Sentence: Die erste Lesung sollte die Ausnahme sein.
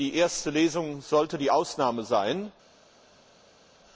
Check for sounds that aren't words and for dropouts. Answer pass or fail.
pass